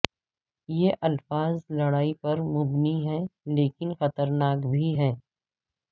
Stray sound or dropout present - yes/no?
no